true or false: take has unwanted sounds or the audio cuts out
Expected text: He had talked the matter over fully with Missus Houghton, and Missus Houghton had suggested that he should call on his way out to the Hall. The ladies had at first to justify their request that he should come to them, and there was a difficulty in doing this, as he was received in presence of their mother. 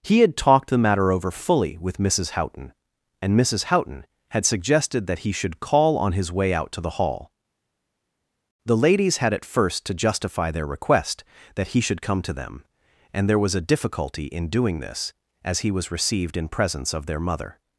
false